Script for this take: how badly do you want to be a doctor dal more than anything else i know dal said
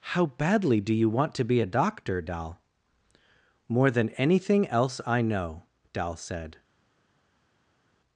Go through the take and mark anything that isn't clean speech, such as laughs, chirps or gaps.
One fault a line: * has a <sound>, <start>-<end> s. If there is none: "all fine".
all fine